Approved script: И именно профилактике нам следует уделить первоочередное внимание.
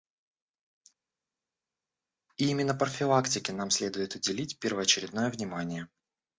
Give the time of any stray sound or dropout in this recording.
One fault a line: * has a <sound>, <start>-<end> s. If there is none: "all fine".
all fine